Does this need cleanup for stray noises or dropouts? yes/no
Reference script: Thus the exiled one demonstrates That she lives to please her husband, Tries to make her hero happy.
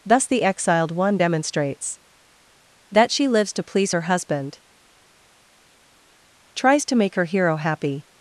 no